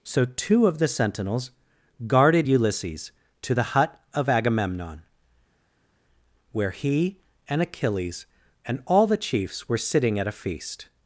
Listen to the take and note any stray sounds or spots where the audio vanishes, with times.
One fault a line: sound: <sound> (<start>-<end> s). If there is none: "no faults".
no faults